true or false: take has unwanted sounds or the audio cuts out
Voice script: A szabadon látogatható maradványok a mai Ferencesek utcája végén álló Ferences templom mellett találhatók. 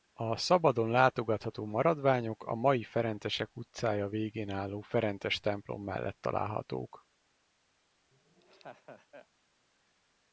true